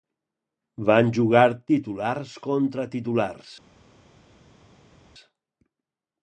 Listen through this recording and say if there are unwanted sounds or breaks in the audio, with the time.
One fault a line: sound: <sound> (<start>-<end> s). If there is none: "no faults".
no faults